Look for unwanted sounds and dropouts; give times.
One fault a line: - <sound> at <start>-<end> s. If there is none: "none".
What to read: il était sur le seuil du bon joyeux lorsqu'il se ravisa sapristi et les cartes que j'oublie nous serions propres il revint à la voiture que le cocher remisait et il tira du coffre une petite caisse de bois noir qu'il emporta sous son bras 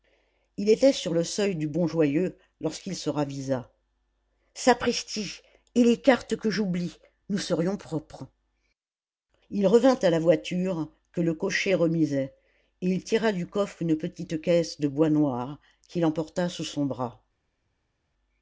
none